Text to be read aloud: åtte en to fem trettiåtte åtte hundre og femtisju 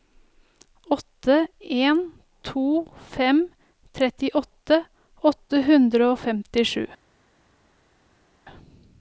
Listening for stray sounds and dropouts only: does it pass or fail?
pass